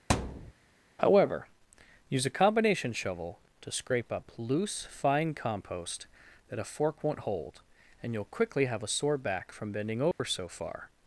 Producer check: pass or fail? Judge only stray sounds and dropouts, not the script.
fail